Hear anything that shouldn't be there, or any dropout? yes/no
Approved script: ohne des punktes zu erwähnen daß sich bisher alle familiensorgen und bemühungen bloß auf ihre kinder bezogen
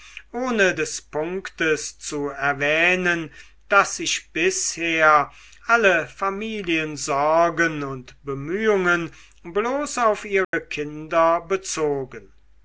yes